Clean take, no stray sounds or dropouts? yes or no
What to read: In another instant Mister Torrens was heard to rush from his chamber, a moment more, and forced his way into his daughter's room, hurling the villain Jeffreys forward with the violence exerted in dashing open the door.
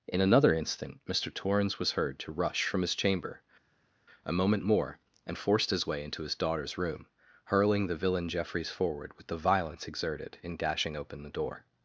yes